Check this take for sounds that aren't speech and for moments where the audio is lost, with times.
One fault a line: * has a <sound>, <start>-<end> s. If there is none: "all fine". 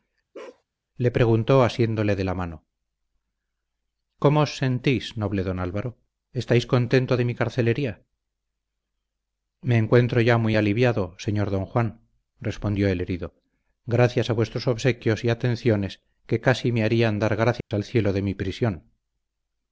* has a bark, 0.3-0.6 s
* has a dropout, 17.6-17.7 s